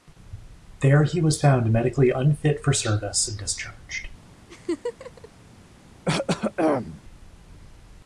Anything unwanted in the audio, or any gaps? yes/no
yes